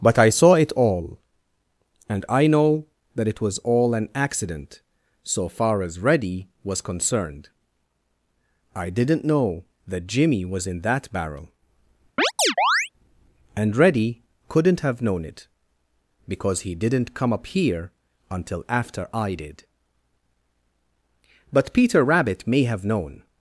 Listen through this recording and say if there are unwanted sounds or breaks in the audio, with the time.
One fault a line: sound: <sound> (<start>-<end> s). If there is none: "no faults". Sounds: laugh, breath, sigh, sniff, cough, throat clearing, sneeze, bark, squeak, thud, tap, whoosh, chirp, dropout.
sound: chirp (12.2-12.9 s)